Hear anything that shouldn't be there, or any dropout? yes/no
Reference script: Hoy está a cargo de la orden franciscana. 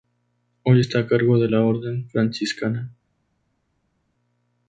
no